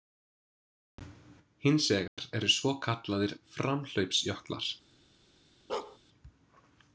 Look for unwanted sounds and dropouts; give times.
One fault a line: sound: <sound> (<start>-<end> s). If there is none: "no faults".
sound: dropout (2.1-2.2 s)
sound: bark (5.7-6.0 s)